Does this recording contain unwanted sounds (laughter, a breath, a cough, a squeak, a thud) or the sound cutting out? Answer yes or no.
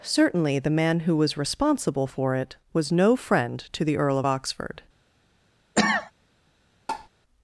yes